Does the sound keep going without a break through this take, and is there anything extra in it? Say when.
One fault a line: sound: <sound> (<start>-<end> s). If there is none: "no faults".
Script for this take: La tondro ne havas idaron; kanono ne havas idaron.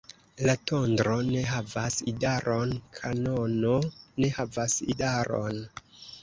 no faults